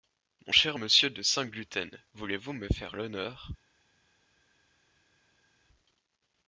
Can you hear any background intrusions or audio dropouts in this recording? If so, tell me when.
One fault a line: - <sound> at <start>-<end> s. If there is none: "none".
none